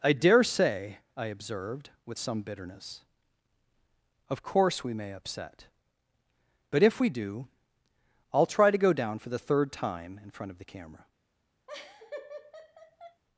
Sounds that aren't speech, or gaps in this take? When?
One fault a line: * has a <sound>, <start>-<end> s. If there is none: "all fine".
* has a laugh, 11.7-13.2 s